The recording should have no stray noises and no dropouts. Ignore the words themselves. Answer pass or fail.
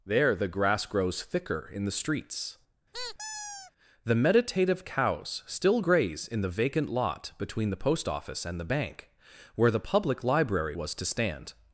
fail